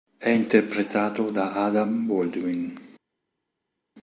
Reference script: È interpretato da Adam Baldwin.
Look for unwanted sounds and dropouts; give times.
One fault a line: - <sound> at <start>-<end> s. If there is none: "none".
none